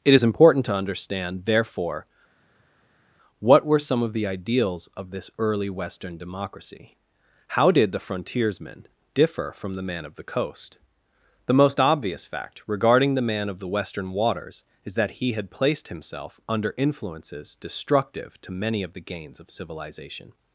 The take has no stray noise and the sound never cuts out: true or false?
true